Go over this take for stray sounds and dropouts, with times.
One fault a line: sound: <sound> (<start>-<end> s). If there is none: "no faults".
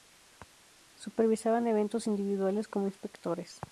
no faults